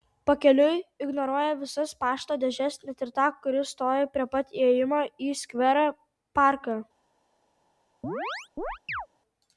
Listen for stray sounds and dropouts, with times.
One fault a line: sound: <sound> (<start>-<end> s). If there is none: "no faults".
sound: chirp (8.0-9.1 s)